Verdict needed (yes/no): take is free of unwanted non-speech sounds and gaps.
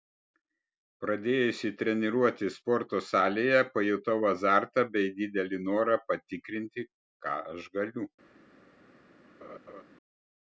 no